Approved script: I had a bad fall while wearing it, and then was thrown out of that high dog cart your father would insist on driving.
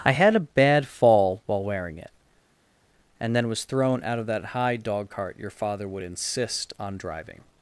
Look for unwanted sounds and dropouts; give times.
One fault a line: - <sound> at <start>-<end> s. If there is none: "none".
none